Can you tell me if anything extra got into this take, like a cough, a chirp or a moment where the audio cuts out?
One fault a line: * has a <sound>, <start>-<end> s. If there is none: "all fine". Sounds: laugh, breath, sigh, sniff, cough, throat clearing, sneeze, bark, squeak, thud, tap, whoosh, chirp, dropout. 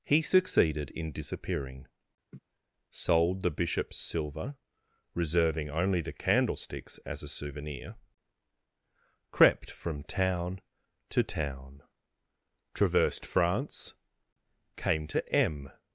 * has a laugh, 2.3-2.4 s